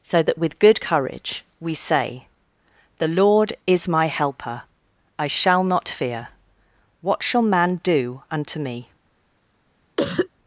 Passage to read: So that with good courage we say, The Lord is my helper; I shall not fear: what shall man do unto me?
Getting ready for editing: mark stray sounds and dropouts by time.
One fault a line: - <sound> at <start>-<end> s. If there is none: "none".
- cough at 10.0-10.3 s